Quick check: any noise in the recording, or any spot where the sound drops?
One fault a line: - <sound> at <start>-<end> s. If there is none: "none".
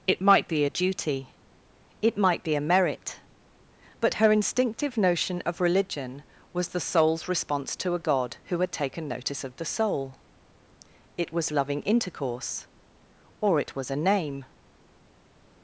none